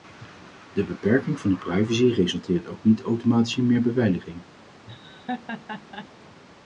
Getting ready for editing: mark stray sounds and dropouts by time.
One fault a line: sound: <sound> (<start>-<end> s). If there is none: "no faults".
sound: laugh (4.9-6.1 s)